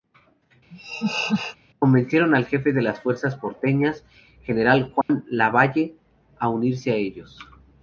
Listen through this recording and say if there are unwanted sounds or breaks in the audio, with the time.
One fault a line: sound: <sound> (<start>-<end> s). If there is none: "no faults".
sound: laugh (0.7-1.6 s)
sound: dropout (5.0-5.1 s)